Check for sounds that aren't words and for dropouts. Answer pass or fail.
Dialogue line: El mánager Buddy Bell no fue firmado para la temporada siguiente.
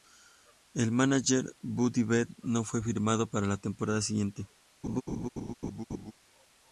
fail